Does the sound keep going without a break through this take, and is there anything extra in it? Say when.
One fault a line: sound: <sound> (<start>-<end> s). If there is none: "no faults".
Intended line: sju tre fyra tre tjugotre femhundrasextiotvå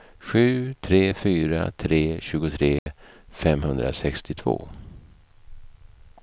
sound: dropout (2.8-2.9 s)